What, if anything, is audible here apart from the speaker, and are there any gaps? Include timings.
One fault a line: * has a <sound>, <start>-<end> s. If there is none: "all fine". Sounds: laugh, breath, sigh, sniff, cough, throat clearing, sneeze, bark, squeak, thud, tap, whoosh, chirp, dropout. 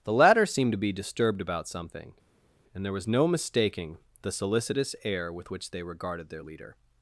all fine